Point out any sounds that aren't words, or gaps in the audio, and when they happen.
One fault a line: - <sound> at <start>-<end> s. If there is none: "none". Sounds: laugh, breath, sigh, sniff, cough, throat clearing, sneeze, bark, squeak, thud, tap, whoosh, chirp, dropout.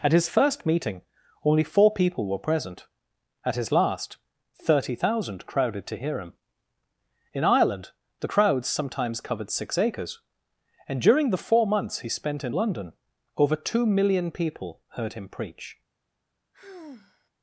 - sigh at 16.5-17.3 s